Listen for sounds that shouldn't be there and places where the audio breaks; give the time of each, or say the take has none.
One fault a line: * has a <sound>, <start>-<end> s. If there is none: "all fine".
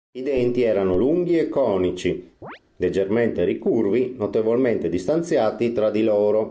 * has a chirp, 2.4-2.6 s